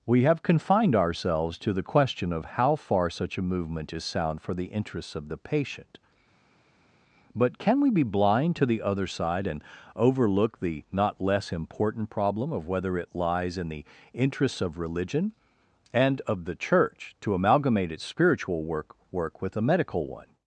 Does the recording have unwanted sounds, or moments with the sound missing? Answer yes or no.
no